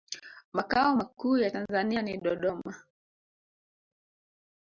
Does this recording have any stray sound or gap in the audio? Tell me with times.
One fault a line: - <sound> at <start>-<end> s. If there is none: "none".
none